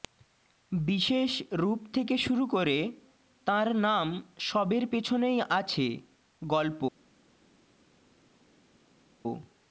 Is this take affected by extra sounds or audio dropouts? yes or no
no